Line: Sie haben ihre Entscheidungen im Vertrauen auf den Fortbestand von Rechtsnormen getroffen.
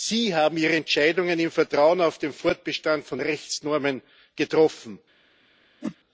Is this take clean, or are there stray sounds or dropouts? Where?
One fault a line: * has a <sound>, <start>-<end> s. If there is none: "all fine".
* has a whoosh, 5.8-6.0 s